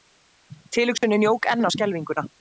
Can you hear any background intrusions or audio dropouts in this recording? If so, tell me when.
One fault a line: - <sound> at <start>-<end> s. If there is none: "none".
- dropout at 1.0-1.0 s